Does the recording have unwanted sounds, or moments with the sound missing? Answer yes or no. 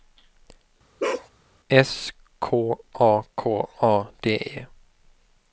yes